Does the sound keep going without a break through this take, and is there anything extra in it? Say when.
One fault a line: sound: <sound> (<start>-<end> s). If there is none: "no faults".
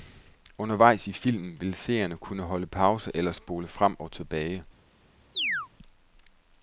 sound: chirp (5.3-5.7 s)